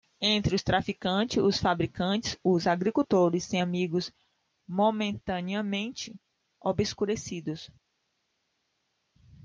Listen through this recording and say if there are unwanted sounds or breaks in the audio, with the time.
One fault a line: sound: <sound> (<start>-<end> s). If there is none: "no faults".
no faults